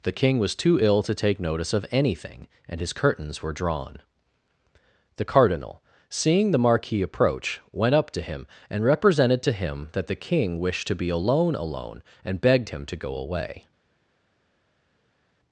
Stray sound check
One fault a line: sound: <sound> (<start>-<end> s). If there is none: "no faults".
no faults